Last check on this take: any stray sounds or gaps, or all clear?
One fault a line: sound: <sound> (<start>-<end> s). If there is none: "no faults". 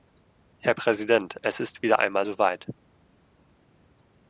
no faults